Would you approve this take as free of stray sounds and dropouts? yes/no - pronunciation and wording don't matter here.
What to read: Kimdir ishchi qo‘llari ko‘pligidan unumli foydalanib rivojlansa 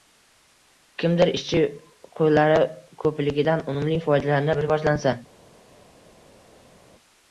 yes